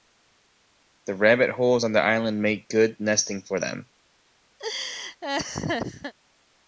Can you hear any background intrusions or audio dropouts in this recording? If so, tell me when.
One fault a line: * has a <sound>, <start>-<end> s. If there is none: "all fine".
* has a laugh, 4.6-6.1 s